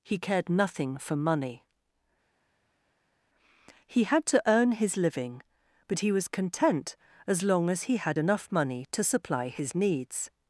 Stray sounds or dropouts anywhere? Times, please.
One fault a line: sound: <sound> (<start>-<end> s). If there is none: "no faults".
no faults